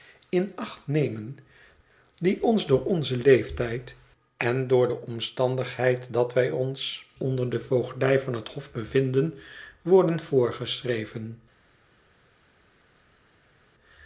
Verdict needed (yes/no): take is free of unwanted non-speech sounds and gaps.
yes